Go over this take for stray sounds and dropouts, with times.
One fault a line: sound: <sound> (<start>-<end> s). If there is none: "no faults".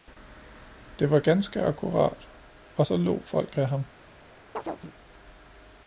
sound: chirp (4.5-4.9 s)